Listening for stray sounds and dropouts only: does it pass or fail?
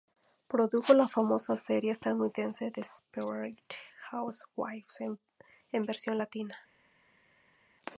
pass